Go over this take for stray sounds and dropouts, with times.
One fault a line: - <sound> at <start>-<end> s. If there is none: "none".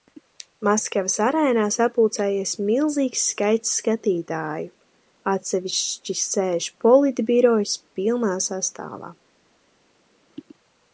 none